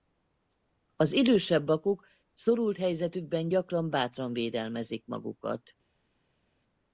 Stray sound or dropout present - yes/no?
no